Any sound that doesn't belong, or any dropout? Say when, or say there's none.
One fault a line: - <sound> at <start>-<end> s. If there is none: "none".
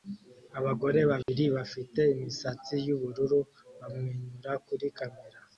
- dropout at 1.2-1.3 s